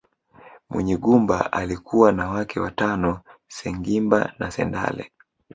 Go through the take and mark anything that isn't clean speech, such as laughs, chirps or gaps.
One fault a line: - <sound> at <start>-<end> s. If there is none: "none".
none